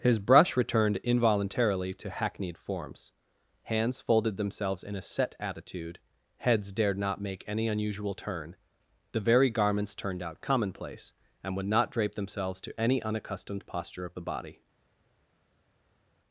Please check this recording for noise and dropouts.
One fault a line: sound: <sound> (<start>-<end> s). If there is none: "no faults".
no faults